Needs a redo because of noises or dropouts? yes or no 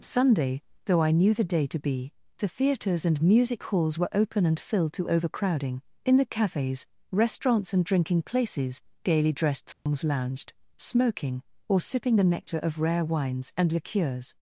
yes